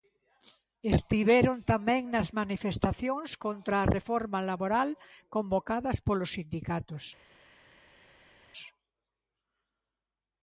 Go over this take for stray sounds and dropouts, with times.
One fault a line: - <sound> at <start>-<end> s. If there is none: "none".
none